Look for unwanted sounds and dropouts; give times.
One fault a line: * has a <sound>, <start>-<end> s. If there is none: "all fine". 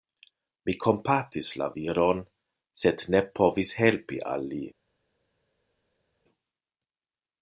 all fine